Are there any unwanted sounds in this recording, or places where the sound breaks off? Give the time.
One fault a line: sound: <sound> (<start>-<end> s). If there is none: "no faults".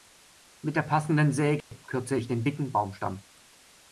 sound: dropout (1.6-1.7 s)